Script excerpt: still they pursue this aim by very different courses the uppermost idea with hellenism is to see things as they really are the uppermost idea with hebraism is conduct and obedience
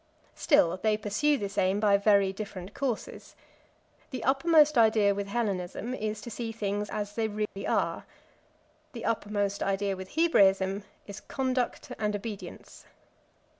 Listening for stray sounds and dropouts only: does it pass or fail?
fail